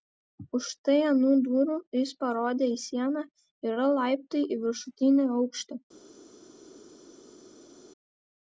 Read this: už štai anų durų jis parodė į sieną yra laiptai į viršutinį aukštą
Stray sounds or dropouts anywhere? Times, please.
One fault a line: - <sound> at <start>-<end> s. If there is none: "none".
none